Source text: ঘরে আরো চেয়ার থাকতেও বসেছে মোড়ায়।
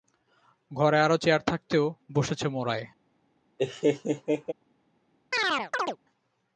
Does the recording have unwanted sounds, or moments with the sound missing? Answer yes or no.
yes